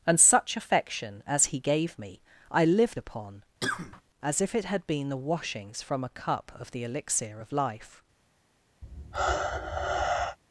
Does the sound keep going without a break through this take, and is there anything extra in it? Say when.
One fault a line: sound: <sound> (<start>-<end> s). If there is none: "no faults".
sound: cough (3.6-4.0 s)
sound: sigh (8.8-10.4 s)